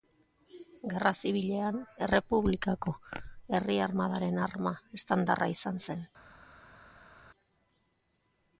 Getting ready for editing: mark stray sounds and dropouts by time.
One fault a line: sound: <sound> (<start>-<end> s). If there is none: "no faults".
no faults